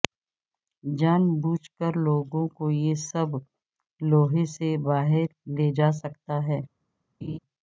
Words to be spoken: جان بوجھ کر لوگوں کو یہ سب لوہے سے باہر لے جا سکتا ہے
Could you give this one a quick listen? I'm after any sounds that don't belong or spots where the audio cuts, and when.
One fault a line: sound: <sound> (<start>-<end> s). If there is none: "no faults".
sound: laugh (7.2-7.4 s)